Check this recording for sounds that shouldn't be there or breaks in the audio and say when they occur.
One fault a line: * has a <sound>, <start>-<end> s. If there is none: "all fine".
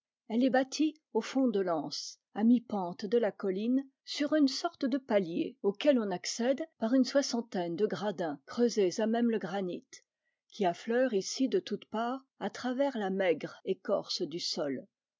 all fine